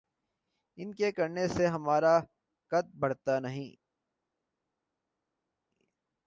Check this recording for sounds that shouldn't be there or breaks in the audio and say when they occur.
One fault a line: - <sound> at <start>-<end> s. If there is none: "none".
none